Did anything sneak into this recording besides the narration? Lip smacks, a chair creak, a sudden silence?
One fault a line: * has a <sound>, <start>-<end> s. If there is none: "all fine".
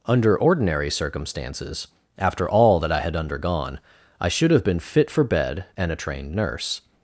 all fine